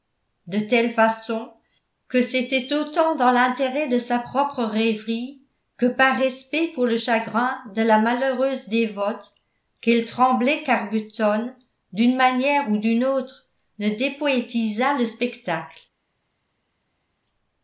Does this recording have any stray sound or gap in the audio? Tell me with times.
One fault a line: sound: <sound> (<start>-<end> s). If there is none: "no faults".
no faults